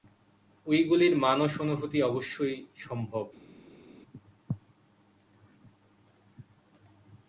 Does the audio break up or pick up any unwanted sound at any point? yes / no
no